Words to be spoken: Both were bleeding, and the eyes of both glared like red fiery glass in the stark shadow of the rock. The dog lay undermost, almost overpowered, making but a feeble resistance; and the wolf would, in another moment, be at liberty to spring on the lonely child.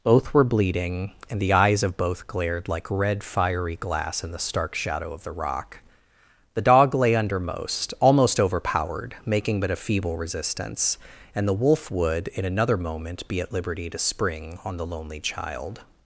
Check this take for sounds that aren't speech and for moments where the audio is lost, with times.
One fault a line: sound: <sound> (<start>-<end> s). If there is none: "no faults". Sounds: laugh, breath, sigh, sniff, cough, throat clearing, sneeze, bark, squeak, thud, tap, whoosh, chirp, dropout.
no faults